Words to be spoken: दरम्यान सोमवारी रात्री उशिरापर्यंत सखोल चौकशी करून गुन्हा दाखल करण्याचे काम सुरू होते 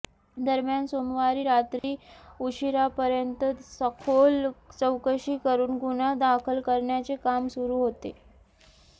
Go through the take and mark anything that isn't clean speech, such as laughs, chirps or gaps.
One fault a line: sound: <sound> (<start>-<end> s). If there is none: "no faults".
sound: dropout (1.8-1.8 s)